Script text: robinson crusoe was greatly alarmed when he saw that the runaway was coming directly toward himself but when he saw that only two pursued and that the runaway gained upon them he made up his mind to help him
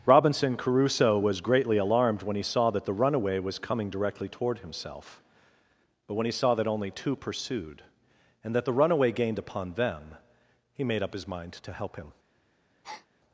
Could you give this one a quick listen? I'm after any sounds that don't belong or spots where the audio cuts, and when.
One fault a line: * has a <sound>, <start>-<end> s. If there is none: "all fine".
* has a breath, 12.8-13.1 s